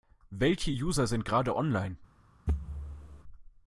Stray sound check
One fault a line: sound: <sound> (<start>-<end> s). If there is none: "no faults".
sound: thud (2.5-3.2 s)